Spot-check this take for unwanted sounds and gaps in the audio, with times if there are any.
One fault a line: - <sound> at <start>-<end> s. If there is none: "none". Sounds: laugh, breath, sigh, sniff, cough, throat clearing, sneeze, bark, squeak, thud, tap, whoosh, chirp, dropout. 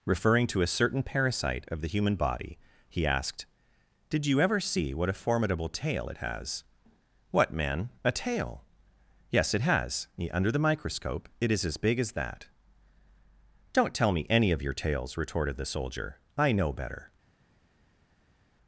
none